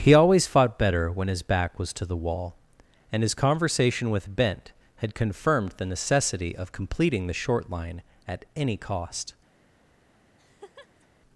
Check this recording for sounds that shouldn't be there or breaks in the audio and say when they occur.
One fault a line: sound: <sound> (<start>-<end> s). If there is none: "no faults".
sound: laugh (10.4-11.1 s)